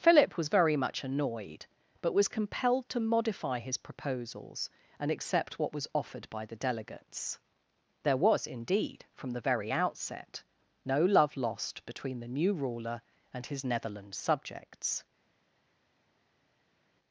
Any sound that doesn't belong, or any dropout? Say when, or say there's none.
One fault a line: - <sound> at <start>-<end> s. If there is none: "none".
none